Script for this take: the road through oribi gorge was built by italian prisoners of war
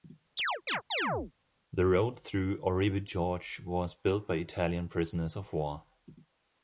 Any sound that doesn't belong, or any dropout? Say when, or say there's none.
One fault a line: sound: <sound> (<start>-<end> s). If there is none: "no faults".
sound: chirp (0.4-1.3 s)